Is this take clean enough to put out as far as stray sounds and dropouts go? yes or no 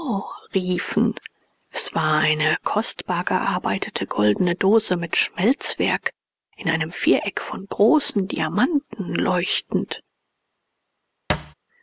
no